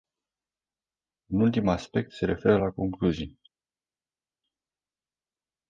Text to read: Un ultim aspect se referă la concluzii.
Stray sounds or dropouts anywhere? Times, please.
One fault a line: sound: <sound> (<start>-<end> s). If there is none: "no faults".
no faults